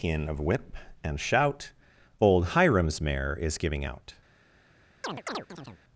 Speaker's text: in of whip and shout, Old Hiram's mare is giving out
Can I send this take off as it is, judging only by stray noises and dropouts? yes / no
no